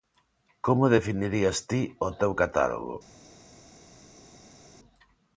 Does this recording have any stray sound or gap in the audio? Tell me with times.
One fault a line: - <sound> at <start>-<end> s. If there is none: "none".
none